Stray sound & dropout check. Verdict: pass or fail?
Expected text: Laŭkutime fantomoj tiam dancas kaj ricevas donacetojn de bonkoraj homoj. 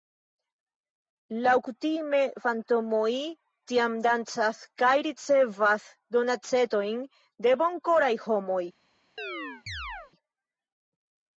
fail